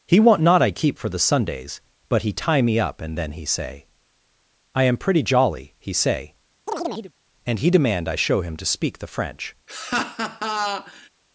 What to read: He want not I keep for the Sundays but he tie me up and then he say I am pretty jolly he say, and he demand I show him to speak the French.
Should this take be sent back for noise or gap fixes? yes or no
yes